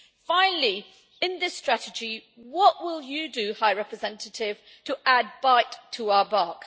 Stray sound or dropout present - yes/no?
no